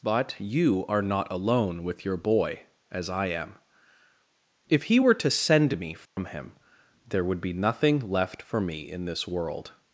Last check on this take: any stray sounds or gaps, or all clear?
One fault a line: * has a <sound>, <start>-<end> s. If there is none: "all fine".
* has a dropout, 6.1-6.2 s